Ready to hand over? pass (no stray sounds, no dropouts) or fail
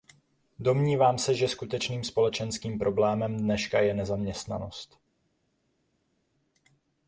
pass